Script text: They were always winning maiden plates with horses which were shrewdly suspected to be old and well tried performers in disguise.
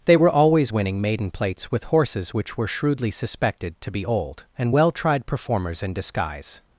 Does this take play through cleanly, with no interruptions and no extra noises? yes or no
yes